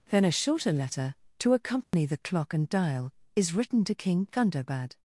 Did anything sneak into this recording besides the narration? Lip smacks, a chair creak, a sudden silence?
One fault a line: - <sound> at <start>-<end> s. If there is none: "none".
- dropout at 1.8-1.9 s